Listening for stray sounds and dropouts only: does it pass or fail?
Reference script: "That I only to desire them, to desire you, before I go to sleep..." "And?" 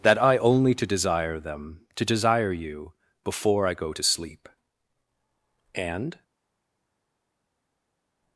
pass